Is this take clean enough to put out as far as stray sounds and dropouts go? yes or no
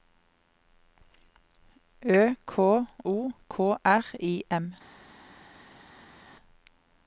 yes